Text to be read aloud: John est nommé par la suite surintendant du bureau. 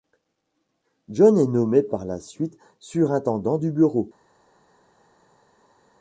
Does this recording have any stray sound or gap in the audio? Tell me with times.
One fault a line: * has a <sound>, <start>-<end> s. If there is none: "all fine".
all fine